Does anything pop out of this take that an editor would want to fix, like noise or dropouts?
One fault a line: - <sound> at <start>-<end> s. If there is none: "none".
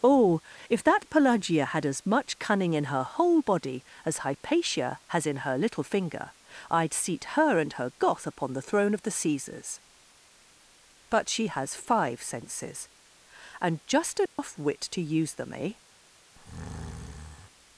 - dropout at 14.3-14.4 s
- breath at 16.4-17.5 s